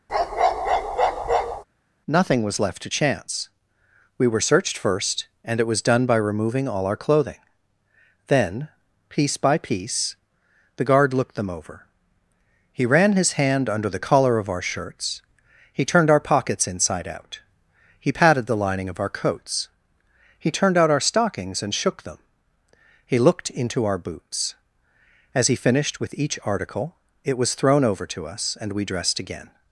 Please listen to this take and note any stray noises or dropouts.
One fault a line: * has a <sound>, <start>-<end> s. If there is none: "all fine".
* has a bark, 0.1-1.6 s